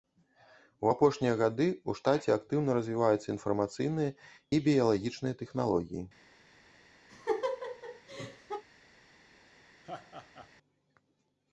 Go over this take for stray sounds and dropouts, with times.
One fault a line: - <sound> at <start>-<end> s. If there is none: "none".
- laugh at 7.1-8.6 s
- laugh at 9.8-10.5 s